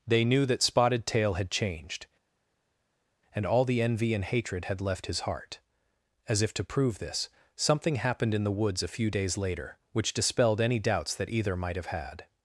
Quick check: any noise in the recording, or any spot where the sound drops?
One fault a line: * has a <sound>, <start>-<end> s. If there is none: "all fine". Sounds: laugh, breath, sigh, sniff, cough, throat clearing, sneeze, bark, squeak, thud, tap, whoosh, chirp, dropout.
all fine